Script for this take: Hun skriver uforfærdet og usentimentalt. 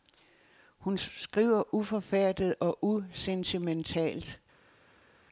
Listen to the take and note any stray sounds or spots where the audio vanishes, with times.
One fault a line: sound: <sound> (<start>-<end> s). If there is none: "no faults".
no faults